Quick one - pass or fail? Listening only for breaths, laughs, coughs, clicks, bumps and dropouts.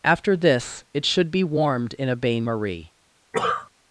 fail